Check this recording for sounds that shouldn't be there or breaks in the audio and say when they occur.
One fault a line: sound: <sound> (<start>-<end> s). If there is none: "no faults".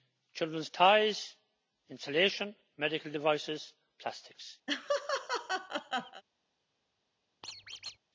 sound: laugh (4.7-6.2 s)
sound: squeak (7.4-8.0 s)